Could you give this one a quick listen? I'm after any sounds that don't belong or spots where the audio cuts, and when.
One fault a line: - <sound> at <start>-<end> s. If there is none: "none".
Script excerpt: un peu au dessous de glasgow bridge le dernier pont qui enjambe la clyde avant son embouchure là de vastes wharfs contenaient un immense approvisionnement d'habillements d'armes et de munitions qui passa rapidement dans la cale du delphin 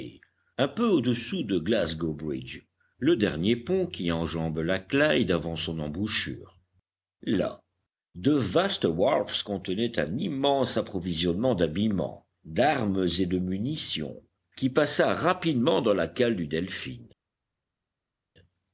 none